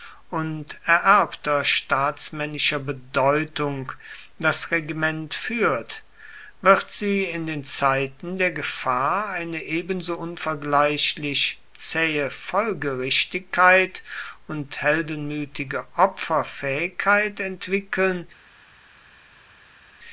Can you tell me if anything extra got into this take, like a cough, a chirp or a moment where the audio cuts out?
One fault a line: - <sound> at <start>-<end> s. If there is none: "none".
none